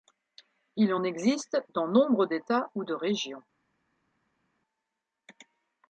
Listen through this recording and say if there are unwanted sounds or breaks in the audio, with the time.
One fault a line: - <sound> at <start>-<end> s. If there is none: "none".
none